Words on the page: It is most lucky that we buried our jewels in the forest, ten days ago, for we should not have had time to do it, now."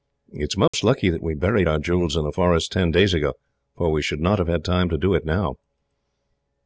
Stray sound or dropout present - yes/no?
yes